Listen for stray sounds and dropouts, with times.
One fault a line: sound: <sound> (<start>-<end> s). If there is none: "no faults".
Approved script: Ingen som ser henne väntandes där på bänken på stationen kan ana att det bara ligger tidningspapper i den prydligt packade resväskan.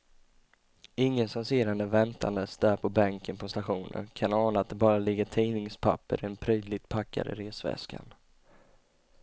no faults